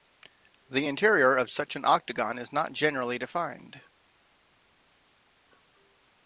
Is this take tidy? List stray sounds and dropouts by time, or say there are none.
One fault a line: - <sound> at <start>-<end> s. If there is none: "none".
none